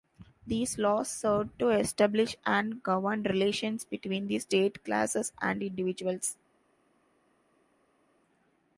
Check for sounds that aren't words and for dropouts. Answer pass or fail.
pass